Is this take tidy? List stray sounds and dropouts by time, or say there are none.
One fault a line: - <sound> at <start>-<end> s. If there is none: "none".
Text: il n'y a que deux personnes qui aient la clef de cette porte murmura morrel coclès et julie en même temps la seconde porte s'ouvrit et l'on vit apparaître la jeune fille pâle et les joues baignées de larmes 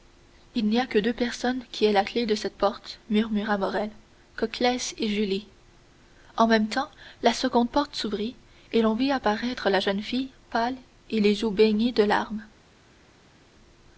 none